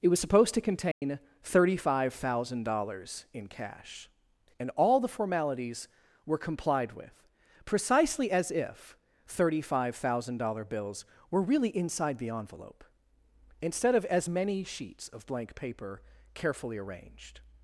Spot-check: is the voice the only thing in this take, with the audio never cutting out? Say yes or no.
no